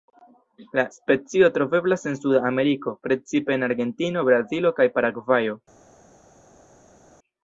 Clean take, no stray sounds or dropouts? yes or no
yes